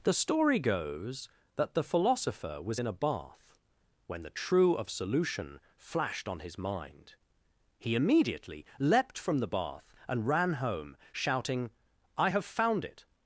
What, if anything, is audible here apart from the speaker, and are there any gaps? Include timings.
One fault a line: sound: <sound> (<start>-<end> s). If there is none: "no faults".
no faults